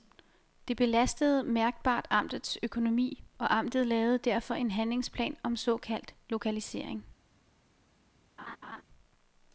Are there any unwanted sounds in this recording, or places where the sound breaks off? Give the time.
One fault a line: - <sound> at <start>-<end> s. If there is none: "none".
- laugh at 8.4-8.8 s